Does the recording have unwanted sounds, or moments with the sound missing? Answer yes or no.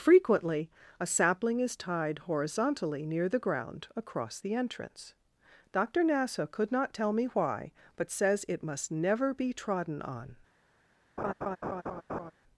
yes